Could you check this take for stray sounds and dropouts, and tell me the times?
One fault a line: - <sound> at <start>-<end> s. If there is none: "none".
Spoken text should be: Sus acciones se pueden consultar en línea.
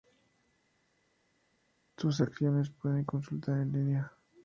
none